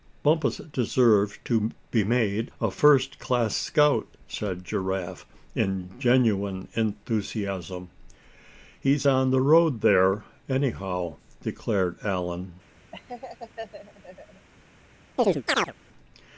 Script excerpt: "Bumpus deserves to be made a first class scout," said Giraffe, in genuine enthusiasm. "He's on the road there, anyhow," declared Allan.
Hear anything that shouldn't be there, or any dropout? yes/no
yes